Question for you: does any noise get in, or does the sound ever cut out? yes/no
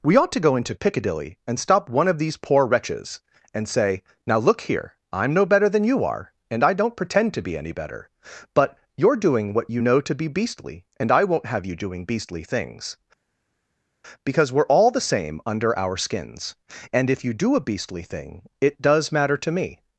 no